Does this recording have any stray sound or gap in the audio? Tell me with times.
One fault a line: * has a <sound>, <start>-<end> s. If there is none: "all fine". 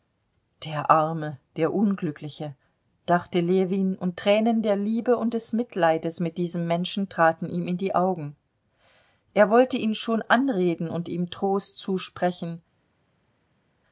all fine